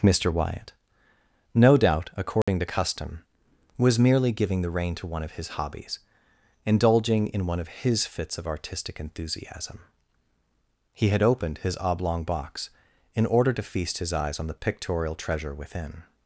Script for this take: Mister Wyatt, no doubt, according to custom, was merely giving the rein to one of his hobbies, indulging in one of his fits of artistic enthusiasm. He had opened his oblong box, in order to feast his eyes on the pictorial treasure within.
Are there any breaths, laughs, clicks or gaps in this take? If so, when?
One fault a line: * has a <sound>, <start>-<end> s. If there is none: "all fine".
* has a dropout, 2.4-2.5 s